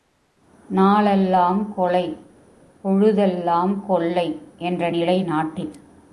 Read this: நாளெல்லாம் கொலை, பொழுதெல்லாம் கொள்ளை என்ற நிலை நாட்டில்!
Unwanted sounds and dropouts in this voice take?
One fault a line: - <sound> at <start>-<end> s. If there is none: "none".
none